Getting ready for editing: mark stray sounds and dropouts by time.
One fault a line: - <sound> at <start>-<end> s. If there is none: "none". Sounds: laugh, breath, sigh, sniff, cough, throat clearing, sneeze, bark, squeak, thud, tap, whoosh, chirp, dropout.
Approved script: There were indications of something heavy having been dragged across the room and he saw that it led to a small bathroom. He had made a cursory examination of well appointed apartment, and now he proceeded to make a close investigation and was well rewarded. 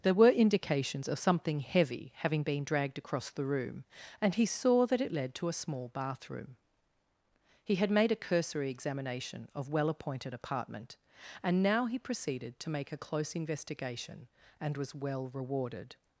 none